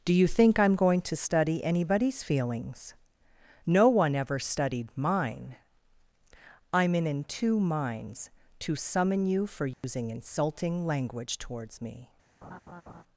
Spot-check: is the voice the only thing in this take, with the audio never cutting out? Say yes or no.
no